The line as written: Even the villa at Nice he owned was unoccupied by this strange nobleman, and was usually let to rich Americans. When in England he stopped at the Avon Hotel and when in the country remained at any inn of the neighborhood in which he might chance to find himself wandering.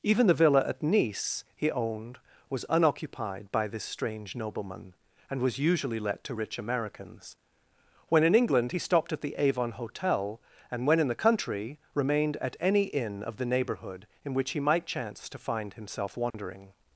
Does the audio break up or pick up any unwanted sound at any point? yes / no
yes